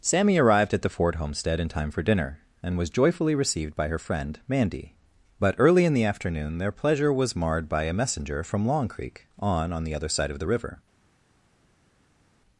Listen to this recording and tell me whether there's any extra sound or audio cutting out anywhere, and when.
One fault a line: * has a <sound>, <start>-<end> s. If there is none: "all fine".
all fine